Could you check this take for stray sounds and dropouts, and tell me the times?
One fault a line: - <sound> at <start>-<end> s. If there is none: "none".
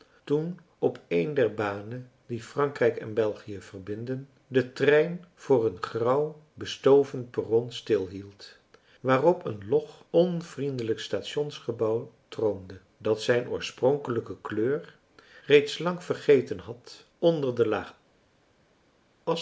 none